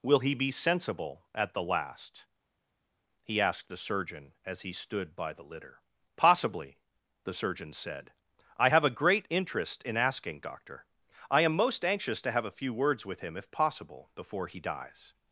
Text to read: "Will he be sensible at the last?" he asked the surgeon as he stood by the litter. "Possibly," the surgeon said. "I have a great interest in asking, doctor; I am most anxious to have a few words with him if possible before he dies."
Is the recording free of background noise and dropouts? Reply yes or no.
yes